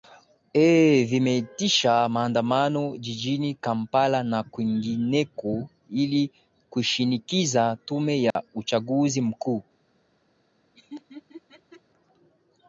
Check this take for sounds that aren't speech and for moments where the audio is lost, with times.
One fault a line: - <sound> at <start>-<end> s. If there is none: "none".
- dropout at 8.3-8.4 s
- laugh at 10.7-11.8 s